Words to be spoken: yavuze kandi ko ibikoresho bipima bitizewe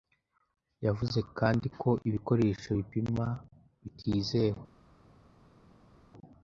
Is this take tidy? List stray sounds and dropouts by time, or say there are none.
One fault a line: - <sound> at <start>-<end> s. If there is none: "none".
none